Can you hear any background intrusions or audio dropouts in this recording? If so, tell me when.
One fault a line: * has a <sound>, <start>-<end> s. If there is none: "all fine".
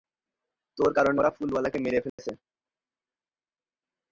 * has a dropout, 2.1-2.2 s